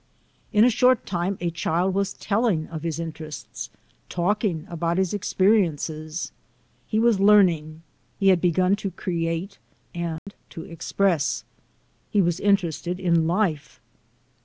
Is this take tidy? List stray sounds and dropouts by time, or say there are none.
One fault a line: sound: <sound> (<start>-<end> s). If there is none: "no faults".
sound: dropout (10.2-10.3 s)